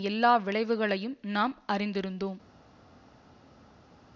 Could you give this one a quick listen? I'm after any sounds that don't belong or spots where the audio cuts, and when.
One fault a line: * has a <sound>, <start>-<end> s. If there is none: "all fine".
all fine